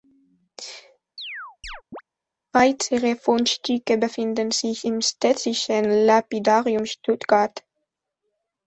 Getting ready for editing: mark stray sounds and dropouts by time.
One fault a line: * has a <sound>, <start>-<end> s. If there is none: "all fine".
* has a chirp, 1.2-2.0 s